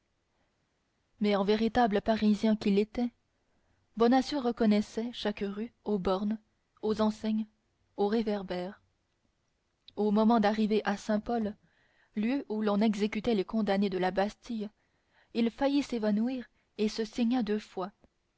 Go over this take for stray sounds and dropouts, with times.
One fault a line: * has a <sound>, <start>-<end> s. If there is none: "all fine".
all fine